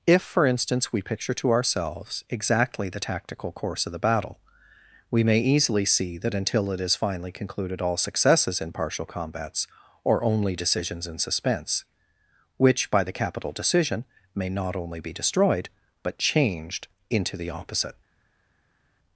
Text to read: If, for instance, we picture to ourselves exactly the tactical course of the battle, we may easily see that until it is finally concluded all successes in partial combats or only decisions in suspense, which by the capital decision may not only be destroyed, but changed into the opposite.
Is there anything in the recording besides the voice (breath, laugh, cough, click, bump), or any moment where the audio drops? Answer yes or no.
no